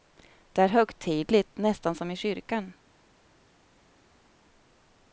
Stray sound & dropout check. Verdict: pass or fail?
pass